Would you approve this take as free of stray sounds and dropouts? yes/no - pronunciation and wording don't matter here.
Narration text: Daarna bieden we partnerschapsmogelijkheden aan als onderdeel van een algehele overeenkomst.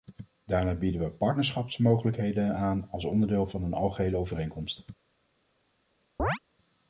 no